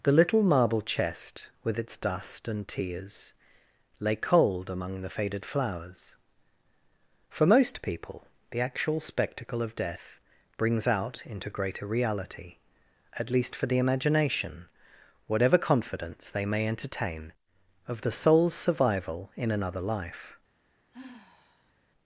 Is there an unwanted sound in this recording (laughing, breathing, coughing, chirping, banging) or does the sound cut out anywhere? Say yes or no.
yes